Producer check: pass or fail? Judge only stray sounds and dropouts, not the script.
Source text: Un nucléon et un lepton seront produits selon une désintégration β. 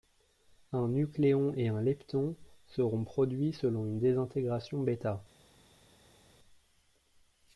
pass